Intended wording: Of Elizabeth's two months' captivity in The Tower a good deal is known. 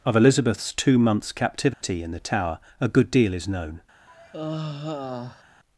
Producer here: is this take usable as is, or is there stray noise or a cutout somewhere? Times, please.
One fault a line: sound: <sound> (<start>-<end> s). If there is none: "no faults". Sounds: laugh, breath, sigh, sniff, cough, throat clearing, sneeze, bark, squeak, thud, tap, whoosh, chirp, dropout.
sound: dropout (1.7-1.8 s)
sound: sigh (4.1-5.4 s)